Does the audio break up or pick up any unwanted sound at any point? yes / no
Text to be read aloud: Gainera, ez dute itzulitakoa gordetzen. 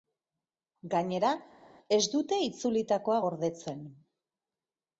no